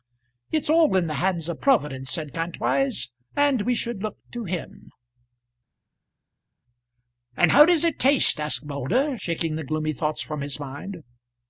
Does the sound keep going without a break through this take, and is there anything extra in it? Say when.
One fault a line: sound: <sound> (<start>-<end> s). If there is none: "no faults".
no faults